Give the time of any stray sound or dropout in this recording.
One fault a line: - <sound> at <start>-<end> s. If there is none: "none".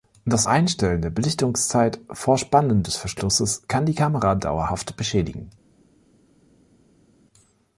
none